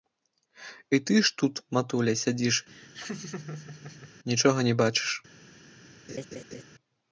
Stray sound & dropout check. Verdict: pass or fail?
fail